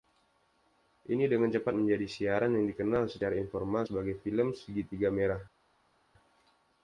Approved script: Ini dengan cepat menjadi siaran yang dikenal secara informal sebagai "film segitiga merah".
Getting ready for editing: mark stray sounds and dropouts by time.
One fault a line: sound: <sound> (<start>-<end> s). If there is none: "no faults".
no faults